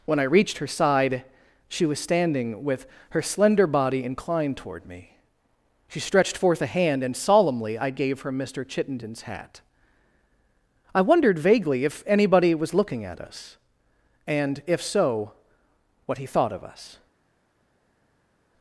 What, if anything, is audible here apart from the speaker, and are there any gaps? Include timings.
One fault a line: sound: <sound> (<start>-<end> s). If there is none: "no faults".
no faults